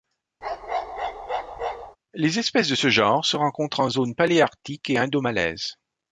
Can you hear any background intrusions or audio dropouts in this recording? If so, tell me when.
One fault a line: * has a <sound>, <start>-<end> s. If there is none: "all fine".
* has a bark, 0.4-2.0 s